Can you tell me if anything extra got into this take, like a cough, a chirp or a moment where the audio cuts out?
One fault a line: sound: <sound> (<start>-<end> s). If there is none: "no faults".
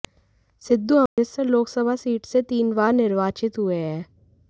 sound: dropout (1.1-1.2 s)